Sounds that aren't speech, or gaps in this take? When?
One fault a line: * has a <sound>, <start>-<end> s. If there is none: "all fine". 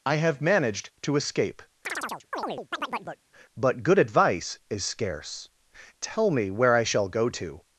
* has a chirp, 1.8-3.2 s